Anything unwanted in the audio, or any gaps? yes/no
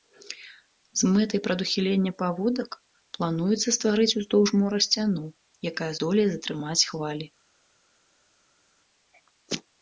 no